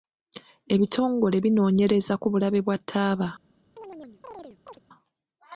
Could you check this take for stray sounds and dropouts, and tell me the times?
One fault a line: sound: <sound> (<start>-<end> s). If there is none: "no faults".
sound: chirp (3.8-4.8 s)